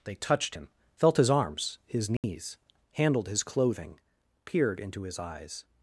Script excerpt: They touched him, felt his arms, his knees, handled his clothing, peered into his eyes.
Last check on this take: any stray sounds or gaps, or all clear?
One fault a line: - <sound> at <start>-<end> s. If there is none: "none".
- dropout at 2.2-2.2 s